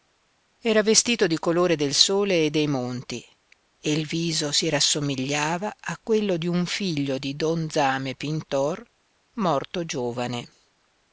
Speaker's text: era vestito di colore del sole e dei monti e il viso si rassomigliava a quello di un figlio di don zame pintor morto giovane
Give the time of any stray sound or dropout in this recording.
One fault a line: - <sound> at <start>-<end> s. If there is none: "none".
none